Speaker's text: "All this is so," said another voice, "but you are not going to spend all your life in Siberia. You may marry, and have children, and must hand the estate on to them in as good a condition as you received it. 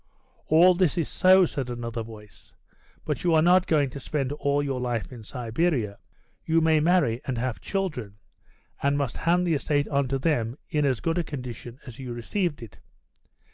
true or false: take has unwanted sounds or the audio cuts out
false